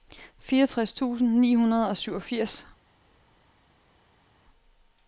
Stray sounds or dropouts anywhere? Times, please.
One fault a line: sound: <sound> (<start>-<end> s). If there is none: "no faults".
no faults